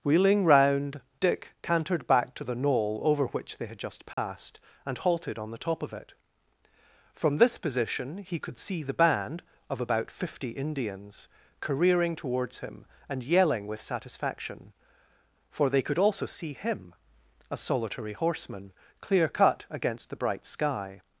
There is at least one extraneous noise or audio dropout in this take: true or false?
true